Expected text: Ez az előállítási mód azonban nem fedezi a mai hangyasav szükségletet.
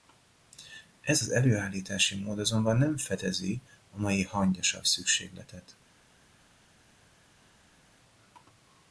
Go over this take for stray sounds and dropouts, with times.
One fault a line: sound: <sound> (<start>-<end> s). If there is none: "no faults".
no faults